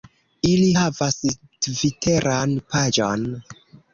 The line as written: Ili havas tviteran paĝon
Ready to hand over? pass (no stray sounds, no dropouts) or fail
pass